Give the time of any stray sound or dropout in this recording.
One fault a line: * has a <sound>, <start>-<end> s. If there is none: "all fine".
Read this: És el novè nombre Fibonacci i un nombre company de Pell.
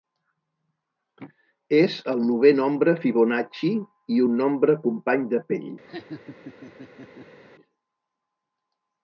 * has a laugh, 5.9-7.4 s